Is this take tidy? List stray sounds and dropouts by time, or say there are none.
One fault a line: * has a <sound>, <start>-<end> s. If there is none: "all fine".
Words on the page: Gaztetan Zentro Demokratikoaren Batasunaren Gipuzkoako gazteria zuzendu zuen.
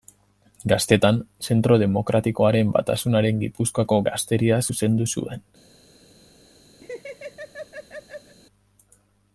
* has a laugh, 6.8-8.4 s